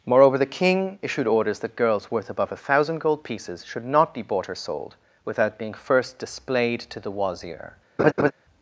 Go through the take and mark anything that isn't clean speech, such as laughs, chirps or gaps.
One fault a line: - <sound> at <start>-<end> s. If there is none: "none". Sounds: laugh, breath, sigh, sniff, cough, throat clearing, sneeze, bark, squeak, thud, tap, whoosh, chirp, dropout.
- laugh at 8.0-8.3 s